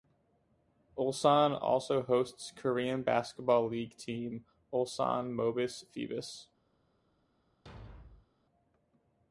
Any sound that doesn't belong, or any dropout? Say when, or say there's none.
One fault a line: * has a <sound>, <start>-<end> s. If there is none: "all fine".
* has a thud, 7.7-8.3 s